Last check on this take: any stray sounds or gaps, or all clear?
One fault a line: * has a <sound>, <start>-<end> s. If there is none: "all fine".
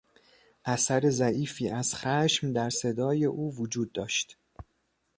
all fine